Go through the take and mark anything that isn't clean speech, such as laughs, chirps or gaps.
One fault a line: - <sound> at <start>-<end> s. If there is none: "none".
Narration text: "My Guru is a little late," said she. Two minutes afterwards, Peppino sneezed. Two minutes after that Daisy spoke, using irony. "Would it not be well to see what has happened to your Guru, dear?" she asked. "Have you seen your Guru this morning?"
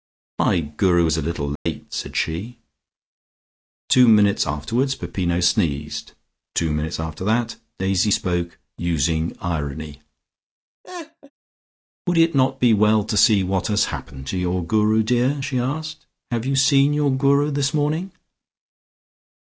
- dropout at 1.6-1.7 s
- laugh at 10.8-11.3 s